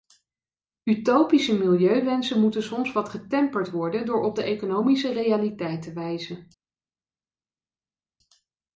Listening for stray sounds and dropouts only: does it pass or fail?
pass